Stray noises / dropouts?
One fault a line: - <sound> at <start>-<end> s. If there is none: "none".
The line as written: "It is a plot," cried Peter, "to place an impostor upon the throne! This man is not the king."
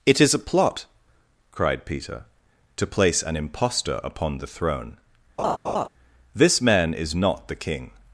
- laugh at 5.4-5.9 s